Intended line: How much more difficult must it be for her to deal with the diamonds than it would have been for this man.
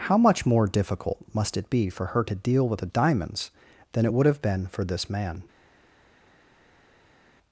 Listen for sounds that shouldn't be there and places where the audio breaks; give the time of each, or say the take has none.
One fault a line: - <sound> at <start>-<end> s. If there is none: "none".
none